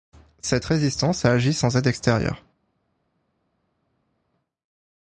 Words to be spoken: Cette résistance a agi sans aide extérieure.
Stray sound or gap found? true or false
false